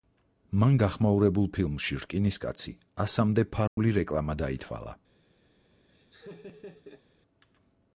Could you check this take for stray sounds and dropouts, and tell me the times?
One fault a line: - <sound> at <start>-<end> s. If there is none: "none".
- dropout at 3.7-3.8 s
- laugh at 5.9-7.0 s